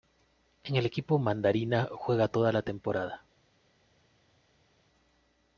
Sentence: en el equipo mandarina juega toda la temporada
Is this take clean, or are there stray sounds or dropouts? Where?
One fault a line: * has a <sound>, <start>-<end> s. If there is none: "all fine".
all fine